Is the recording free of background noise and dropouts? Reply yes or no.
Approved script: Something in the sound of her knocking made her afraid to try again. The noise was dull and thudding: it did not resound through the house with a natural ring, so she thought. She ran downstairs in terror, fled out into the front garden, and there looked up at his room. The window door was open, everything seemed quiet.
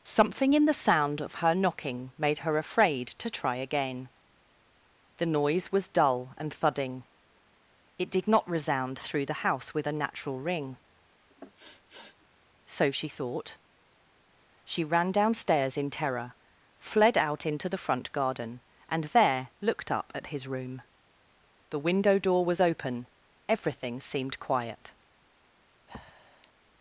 no